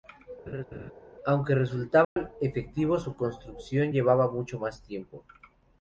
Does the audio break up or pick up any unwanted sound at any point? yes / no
yes